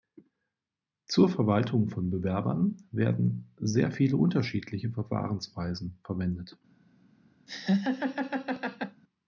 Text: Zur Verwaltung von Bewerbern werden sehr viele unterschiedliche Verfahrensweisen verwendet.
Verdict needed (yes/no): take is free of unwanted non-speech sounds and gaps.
no